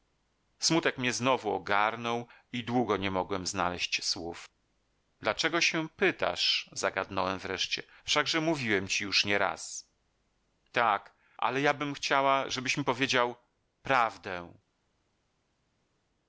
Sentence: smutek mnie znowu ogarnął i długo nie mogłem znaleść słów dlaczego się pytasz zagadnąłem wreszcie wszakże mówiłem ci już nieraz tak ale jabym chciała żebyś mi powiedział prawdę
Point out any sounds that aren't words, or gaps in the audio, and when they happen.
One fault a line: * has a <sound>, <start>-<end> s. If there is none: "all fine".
all fine